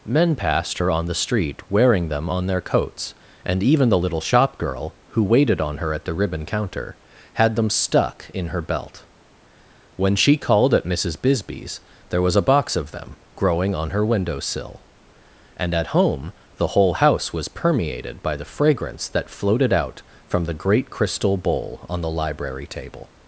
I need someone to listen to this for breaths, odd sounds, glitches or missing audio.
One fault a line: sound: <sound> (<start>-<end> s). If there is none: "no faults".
no faults